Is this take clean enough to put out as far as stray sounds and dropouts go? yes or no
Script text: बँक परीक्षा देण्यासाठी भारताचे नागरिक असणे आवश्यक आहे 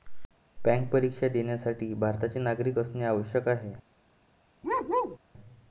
no